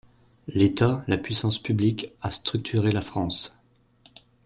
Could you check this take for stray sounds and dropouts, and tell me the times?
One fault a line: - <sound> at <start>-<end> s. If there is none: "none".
none